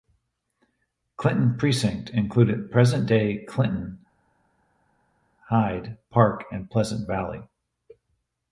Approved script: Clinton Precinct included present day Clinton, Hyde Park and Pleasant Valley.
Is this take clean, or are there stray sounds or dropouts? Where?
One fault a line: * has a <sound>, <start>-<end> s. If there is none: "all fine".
all fine